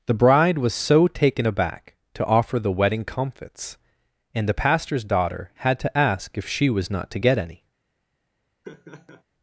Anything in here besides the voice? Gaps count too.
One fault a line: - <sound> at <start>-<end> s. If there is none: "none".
- laugh at 8.6-9.2 s